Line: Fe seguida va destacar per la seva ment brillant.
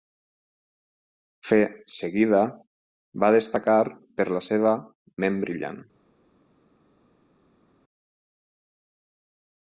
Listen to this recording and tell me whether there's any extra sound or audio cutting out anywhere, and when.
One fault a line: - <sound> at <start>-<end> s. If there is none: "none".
none